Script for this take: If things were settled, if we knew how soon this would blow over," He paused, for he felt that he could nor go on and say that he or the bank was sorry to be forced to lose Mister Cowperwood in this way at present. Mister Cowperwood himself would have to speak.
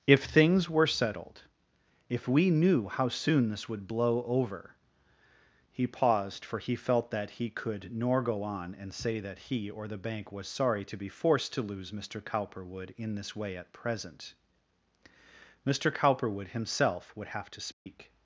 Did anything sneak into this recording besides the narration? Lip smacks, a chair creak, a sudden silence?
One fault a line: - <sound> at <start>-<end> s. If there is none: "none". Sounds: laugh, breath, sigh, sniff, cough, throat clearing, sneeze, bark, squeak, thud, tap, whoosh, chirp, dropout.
- dropout at 17.7-17.9 s